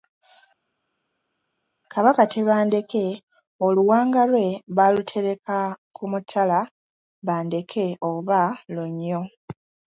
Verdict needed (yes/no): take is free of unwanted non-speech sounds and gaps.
yes